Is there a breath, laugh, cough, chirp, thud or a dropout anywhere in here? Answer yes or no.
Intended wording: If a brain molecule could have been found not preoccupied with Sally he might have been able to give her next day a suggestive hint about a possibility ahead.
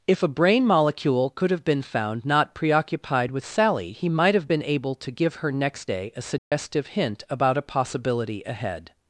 yes